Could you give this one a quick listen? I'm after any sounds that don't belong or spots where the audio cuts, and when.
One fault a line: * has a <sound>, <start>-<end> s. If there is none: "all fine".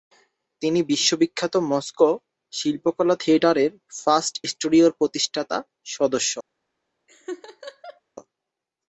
* has a laugh, 7.1-8.0 s